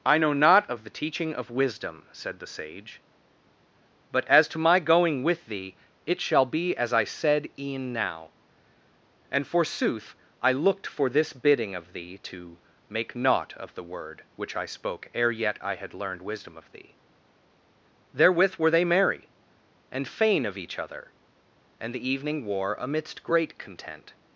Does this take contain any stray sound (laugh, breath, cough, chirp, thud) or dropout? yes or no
no